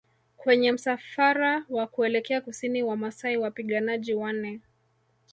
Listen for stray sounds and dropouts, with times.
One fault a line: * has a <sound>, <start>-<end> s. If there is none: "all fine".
all fine